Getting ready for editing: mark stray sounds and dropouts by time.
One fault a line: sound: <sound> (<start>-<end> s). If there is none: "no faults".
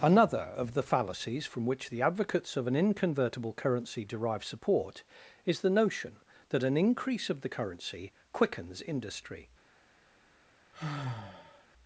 sound: sigh (10.7-11.7 s)